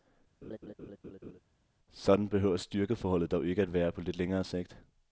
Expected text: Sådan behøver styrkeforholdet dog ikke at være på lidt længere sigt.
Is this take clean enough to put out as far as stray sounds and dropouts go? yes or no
no